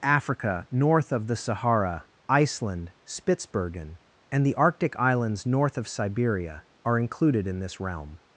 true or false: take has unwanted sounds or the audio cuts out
false